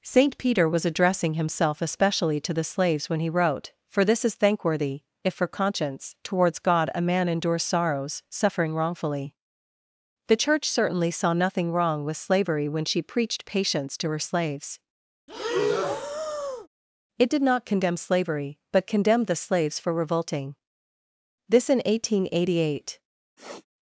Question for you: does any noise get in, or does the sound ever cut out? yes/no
yes